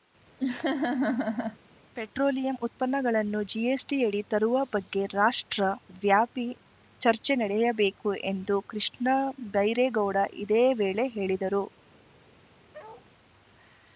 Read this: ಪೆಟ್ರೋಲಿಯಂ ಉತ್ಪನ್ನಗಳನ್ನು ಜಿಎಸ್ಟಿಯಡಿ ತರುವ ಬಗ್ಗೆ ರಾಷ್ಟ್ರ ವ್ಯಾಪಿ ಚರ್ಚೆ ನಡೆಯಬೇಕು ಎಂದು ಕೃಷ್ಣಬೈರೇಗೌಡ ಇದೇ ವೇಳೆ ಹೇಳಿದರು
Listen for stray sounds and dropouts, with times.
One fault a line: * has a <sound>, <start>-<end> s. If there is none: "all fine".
* has a laugh, 0.4-1.6 s
* has a bark, 12.7-13.1 s